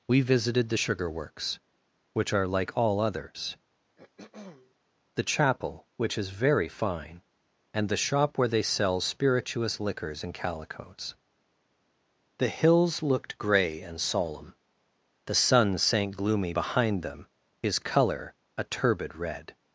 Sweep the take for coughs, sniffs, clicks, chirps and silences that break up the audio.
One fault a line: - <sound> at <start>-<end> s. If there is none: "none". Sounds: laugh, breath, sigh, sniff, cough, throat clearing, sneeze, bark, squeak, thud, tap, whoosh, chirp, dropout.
- throat clearing at 4.0-4.8 s